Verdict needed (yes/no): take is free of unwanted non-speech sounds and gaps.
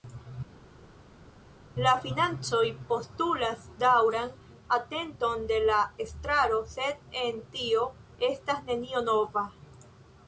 yes